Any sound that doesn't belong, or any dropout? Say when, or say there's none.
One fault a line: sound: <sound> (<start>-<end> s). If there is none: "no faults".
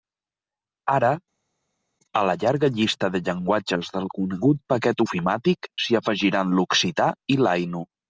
no faults